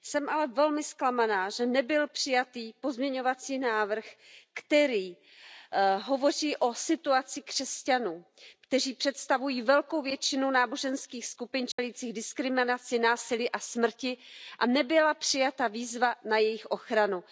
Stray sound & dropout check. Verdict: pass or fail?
fail